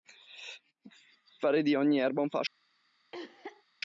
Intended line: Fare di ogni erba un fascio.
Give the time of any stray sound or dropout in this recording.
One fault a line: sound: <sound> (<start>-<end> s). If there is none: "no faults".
sound: cough (3.1-3.6 s)